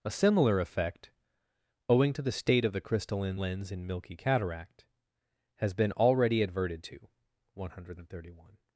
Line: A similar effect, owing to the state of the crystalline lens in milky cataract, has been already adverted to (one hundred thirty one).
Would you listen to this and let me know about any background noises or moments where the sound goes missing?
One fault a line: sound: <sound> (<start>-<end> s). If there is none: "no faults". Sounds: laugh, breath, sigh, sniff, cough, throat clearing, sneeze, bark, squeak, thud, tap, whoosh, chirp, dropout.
no faults